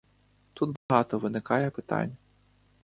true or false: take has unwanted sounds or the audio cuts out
true